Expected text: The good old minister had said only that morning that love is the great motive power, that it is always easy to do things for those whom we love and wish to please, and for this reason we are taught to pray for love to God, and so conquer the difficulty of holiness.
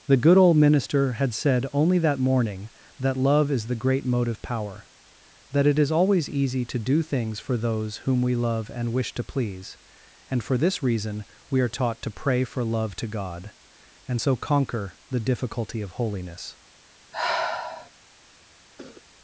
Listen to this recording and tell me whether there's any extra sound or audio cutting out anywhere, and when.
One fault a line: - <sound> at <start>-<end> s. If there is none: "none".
- sigh at 17.1-17.9 s
- cough at 18.8-19.0 s